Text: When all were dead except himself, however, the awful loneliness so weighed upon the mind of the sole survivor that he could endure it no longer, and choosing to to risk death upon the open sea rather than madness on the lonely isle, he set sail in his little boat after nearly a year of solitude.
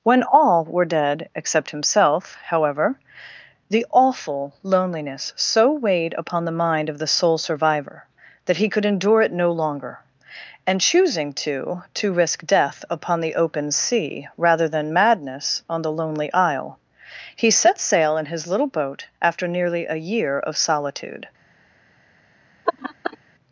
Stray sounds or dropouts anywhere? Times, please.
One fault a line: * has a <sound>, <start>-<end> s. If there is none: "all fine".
* has a laugh, 22.7-23.2 s